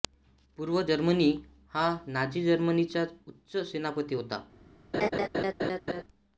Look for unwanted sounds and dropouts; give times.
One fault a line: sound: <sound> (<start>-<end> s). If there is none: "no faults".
sound: laugh (4.9-6.0 s)